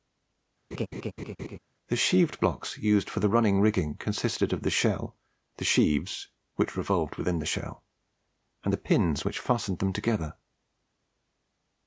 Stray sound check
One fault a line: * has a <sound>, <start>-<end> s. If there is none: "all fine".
* has a laugh, 0.7-1.6 s